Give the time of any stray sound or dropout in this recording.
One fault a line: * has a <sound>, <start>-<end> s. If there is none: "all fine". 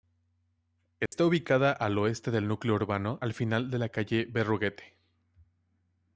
* has a dropout, 1.1-1.1 s